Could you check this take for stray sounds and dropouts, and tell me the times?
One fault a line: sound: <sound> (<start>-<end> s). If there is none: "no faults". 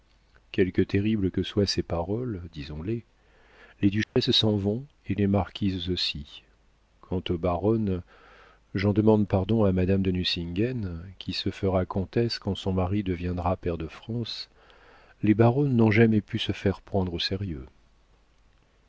sound: dropout (4.0-4.2 s)